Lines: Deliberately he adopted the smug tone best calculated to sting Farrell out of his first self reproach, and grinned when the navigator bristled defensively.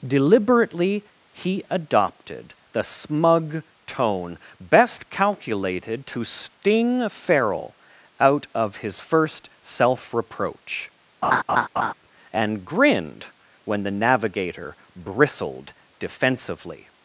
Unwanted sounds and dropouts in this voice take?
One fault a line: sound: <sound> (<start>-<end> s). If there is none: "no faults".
sound: laugh (11.2-11.9 s)